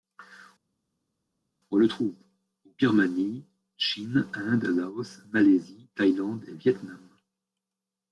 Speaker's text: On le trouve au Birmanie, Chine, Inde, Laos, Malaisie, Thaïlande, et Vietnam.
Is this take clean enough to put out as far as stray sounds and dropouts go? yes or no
yes